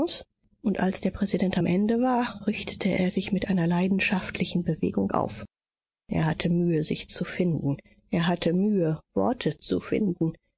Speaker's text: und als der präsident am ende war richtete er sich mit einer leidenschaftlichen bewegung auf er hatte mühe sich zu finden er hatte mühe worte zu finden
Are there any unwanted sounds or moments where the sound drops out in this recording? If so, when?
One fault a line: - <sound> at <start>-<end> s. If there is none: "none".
none